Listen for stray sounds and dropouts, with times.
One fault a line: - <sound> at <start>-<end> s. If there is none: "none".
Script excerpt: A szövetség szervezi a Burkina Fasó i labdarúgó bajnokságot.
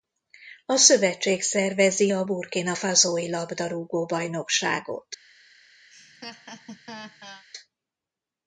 - laugh at 5.9-7.5 s